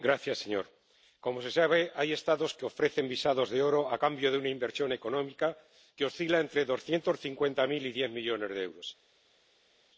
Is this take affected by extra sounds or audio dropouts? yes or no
no